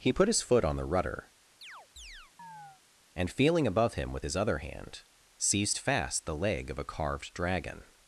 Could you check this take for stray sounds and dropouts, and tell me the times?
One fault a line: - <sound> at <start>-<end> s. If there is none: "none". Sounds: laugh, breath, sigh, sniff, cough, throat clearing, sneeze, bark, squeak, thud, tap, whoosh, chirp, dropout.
- chirp at 1.6-2.8 s